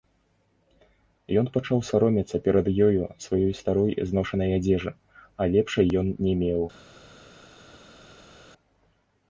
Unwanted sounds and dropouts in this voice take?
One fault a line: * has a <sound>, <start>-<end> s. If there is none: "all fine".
all fine